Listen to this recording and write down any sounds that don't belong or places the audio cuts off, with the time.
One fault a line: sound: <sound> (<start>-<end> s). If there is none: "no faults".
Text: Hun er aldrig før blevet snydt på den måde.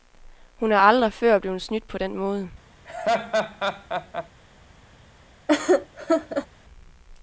sound: laugh (2.9-4.3 s)
sound: laugh (5.5-6.5 s)